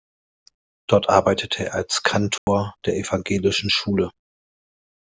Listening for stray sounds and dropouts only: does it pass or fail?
fail